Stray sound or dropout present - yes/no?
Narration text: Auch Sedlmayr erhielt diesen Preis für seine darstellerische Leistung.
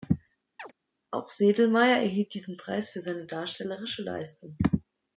yes